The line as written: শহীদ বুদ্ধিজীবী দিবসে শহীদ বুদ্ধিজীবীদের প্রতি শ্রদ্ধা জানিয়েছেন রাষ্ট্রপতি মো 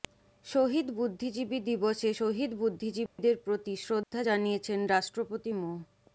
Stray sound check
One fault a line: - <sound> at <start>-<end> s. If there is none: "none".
- dropout at 3.1-3.2 s
- dropout at 4.0-4.1 s